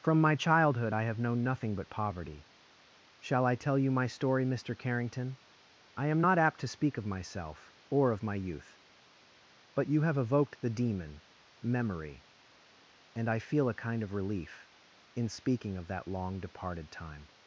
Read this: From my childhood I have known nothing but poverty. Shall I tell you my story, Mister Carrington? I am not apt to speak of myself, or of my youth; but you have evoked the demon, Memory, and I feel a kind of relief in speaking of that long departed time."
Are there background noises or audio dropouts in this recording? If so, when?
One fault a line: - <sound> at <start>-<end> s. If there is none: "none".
none